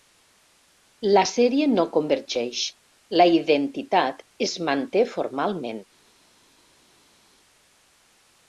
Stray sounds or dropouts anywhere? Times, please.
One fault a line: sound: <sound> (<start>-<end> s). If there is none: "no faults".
no faults